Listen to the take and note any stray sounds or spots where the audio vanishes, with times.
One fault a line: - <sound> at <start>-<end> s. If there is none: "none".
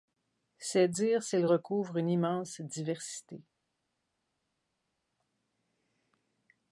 none